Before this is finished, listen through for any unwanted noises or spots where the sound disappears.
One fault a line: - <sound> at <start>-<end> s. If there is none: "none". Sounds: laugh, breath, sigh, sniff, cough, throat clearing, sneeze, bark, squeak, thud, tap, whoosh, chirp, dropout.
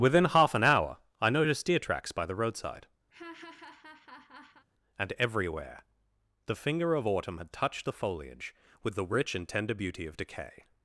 - laugh at 3.1-4.6 s